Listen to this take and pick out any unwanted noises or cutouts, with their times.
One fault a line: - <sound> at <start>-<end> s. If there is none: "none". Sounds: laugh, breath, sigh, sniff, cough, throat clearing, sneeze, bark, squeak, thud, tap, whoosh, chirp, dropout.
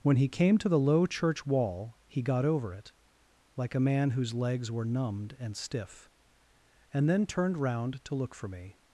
none